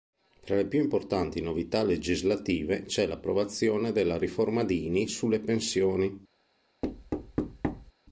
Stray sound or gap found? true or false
true